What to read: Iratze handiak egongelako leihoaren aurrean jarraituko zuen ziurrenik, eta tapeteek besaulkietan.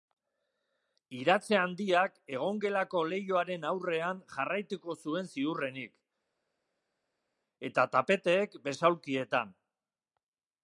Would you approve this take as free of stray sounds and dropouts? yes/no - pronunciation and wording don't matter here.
yes